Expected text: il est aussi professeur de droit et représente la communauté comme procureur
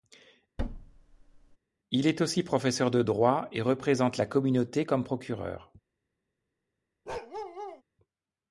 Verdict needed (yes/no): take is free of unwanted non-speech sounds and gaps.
no